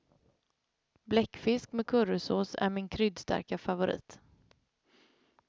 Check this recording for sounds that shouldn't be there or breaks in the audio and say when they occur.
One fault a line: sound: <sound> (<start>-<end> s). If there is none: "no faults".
no faults